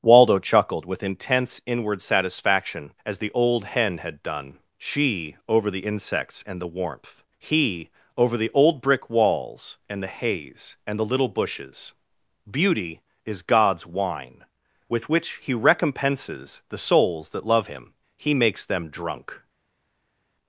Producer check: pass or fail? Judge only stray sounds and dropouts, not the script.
pass